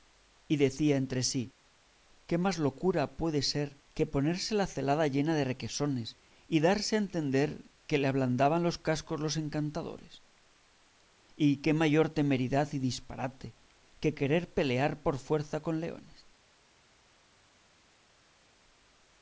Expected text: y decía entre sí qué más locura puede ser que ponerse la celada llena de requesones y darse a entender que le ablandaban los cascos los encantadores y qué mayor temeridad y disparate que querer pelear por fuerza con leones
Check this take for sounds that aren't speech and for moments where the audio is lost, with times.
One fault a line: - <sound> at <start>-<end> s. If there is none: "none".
none